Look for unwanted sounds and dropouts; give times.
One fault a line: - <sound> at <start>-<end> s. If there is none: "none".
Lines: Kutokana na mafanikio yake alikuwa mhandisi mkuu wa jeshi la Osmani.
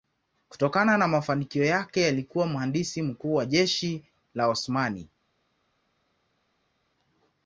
none